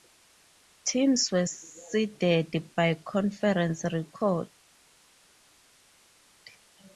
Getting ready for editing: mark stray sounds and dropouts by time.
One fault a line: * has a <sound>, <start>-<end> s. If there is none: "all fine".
all fine